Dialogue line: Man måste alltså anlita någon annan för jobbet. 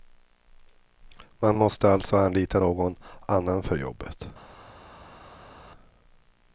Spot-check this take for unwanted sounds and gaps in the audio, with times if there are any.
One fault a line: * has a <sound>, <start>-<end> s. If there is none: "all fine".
all fine